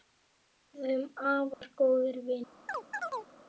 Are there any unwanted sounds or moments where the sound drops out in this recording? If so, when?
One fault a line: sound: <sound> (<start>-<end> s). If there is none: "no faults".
sound: dropout (1.5-1.6 s)
sound: chirp (2.7-3.3 s)